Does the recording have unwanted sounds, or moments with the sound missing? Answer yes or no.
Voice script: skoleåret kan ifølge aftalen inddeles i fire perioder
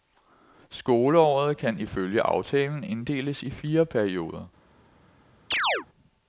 yes